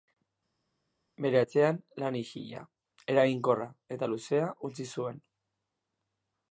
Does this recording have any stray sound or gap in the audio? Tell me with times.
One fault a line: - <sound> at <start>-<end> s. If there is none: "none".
none